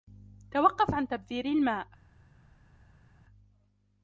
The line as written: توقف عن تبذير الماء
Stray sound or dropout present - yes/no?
no